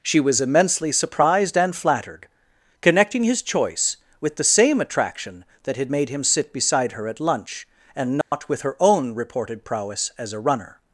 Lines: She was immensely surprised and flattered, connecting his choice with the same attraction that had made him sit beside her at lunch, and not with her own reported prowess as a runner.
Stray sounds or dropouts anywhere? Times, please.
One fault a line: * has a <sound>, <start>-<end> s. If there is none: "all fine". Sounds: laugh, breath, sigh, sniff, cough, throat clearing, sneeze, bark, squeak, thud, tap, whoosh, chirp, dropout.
* has a dropout, 8.2-8.3 s